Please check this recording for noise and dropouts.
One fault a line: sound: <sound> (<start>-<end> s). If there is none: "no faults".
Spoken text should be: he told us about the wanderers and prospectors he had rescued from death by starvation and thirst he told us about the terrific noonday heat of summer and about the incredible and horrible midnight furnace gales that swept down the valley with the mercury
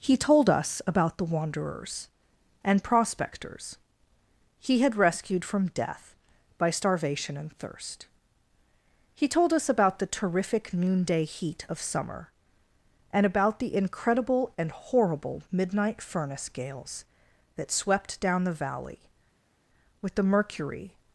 no faults